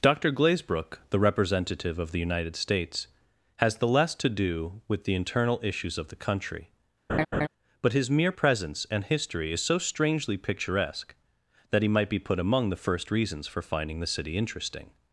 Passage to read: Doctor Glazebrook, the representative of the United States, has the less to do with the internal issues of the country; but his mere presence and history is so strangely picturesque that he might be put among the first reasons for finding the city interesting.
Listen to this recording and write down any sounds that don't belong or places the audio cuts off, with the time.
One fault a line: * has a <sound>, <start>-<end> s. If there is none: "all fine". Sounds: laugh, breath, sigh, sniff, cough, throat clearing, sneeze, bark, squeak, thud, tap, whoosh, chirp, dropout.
* has a laugh, 7.1-7.5 s